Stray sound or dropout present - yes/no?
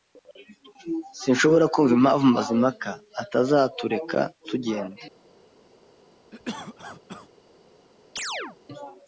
yes